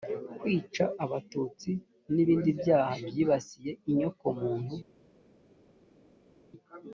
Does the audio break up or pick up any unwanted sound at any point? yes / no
no